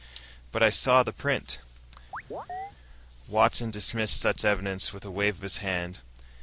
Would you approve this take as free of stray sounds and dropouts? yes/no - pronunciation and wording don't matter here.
no